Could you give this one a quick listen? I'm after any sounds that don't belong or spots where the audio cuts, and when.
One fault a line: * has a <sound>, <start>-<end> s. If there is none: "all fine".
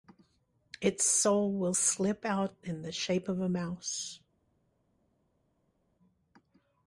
all fine